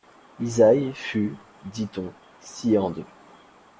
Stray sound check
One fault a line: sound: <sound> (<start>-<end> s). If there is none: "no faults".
no faults